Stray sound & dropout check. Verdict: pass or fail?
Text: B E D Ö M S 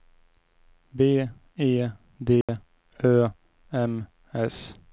fail